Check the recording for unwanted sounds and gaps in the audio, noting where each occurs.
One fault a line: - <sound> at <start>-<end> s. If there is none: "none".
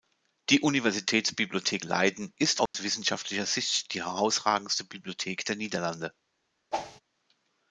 - dropout at 2.7-2.7 s
- whoosh at 6.7-7.0 s